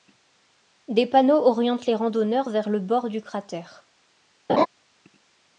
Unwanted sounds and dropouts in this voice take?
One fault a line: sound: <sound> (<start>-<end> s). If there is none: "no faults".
sound: laugh (4.5-4.7 s)